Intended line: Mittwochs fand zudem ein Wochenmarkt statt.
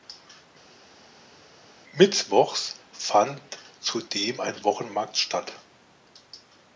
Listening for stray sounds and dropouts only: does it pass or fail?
pass